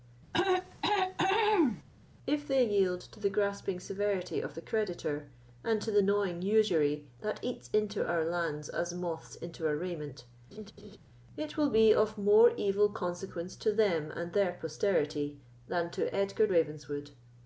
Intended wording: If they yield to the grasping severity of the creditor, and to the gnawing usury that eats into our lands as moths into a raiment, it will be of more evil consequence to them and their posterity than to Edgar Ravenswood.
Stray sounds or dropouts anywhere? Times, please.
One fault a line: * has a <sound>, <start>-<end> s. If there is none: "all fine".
* has a throat clearing, 0.3-1.8 s
* has a laugh, 10.5-11.0 s